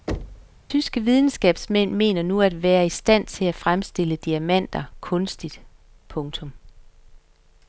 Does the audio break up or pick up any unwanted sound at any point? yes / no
yes